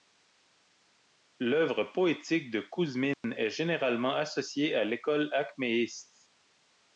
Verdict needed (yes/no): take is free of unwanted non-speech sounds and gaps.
no